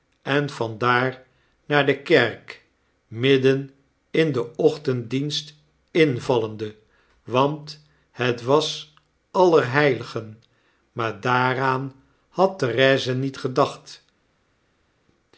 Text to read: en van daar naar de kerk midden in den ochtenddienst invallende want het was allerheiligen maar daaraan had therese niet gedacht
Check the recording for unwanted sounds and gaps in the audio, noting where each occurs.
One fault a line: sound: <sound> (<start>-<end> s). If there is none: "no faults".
no faults